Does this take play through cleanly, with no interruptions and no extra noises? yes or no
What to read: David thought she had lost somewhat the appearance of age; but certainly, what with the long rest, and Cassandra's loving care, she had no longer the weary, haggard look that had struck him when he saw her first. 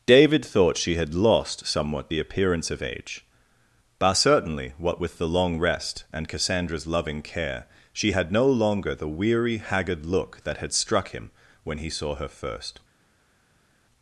yes